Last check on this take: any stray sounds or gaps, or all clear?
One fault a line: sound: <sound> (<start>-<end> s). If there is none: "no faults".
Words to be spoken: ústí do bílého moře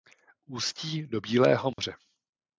sound: dropout (1.7-1.8 s)